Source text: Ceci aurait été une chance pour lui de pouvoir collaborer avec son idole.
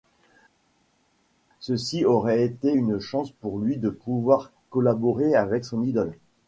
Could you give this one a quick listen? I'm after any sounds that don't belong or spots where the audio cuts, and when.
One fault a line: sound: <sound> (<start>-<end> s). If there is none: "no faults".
no faults